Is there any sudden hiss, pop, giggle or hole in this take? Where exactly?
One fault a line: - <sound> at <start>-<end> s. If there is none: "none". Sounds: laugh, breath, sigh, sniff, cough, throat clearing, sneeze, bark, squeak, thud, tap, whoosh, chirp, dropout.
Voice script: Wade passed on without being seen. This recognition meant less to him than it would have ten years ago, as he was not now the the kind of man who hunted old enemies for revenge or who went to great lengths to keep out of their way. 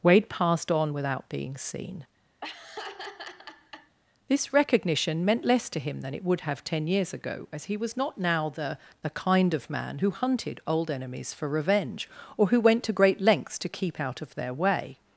- laugh at 2.4-4.0 s